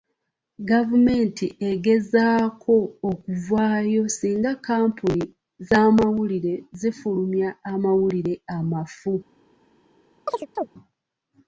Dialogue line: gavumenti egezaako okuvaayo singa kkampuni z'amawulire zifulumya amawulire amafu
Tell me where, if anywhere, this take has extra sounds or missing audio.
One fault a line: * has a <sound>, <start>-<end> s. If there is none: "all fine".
* has a chirp, 10.3-10.7 s